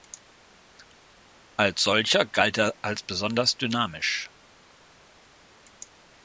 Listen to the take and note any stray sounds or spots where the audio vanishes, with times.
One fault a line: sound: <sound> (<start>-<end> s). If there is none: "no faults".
no faults